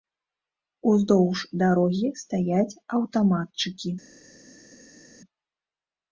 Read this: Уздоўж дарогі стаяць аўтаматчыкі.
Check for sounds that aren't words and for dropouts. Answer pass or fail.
pass